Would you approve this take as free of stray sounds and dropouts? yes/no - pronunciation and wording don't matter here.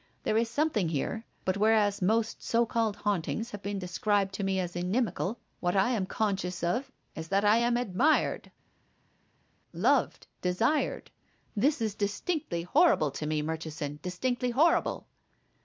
yes